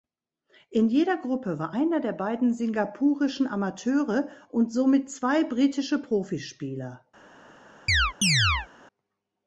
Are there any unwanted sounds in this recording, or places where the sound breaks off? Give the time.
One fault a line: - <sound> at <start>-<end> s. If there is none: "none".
- chirp at 7.9-8.7 s